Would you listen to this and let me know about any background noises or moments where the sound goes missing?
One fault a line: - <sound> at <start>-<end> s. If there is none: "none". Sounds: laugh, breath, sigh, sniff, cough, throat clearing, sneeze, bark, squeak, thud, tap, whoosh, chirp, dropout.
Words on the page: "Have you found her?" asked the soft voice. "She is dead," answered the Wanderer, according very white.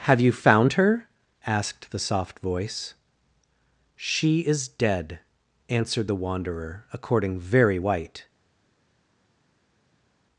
none